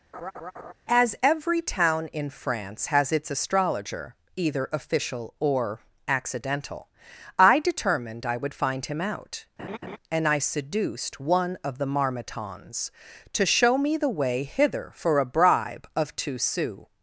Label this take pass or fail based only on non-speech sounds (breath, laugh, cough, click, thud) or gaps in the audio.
fail